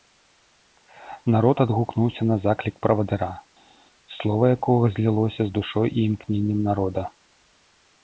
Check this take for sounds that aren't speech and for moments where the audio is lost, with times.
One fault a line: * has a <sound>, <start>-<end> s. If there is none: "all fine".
all fine